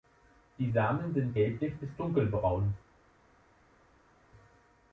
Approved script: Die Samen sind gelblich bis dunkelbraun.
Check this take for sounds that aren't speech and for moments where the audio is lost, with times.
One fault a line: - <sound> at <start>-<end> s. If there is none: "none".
none